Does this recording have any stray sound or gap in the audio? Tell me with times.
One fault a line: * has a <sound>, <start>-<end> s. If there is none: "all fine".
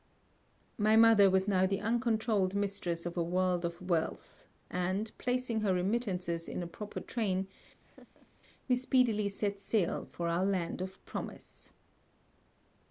* has a laugh, 7.8-8.3 s